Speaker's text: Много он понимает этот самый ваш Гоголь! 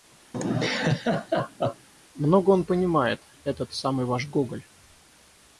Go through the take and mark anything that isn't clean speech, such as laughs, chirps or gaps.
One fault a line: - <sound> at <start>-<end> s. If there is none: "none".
- laugh at 0.3-1.9 s